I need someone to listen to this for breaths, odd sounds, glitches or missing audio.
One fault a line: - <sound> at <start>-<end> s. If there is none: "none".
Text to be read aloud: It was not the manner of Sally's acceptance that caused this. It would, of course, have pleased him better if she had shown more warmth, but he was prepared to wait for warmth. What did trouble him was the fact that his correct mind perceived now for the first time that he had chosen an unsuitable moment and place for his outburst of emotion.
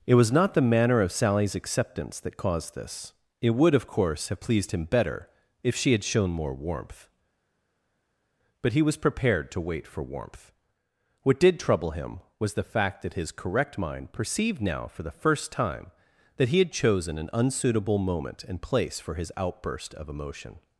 none